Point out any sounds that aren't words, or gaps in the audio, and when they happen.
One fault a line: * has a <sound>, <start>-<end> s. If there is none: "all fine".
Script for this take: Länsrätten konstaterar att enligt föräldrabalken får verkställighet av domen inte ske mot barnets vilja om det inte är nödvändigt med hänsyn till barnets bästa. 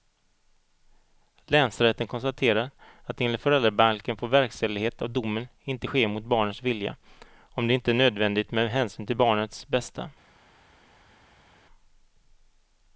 all fine